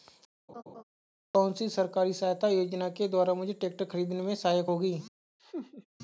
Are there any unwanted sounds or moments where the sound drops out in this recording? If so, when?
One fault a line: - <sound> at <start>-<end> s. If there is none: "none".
- laugh at 0.5-0.8 s
- laugh at 5.4-5.9 s